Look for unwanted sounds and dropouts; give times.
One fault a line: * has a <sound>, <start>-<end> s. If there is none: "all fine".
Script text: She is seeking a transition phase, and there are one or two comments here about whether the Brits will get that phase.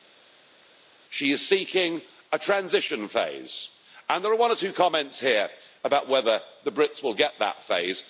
all fine